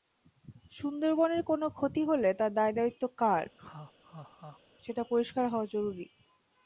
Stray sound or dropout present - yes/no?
yes